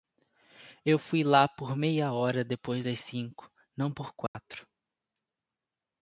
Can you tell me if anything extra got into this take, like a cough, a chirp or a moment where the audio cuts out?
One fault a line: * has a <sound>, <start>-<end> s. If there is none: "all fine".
* has a dropout, 4.3-4.3 s